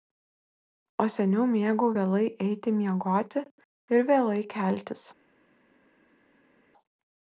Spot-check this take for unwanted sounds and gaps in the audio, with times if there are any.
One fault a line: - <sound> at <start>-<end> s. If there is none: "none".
none